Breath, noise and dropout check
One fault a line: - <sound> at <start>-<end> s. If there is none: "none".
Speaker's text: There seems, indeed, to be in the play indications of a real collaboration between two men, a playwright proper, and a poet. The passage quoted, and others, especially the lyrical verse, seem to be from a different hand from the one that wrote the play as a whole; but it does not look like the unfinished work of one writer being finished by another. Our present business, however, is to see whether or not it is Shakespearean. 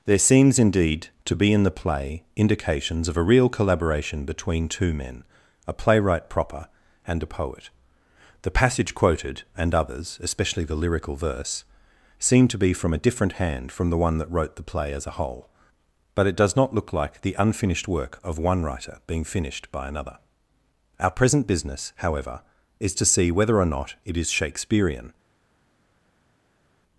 none